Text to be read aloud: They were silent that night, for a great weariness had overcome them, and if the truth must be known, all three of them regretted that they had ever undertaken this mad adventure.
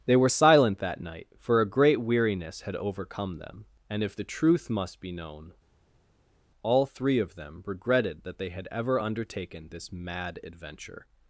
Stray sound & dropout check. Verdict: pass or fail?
pass